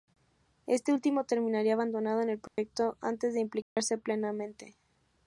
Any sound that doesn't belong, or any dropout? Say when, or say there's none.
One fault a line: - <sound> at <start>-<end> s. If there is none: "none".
- dropout at 2.5-2.6 s
- dropout at 3.6-3.8 s